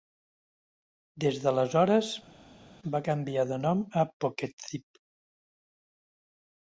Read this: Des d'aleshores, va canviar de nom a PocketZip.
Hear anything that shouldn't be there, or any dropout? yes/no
no